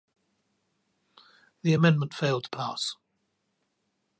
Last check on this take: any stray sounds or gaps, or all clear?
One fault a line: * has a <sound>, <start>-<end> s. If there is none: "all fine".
all fine